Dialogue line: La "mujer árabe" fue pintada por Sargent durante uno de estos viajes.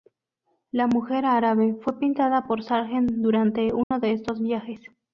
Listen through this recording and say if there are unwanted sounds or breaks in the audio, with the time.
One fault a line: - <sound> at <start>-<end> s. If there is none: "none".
- dropout at 3.8-3.9 s